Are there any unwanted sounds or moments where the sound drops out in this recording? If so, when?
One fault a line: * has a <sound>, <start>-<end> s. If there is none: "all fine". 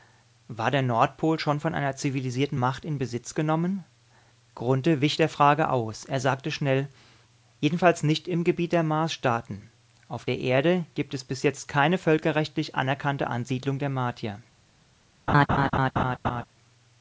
* has a laugh, 15.3-16.4 s